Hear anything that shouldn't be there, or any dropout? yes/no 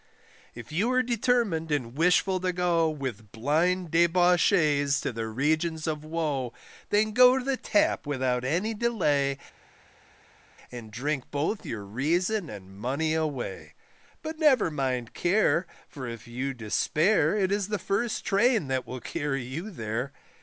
no